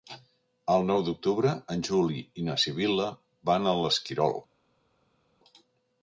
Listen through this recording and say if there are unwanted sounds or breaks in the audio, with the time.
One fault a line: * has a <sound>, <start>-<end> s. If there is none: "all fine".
all fine